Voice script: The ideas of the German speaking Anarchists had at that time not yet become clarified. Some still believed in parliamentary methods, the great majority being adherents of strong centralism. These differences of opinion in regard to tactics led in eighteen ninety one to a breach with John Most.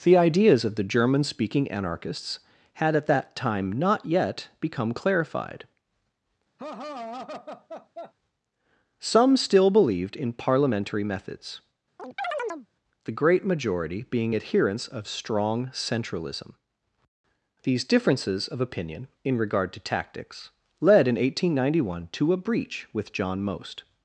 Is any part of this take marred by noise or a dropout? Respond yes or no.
yes